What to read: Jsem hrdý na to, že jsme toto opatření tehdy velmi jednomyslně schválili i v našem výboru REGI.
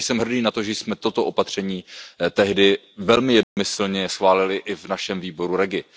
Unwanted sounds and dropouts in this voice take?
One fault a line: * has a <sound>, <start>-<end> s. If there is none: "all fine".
* has a dropout, 3.4-3.6 s